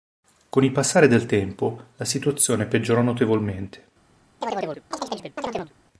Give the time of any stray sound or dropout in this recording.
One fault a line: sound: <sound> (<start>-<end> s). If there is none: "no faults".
sound: chirp (4.4-5.7 s)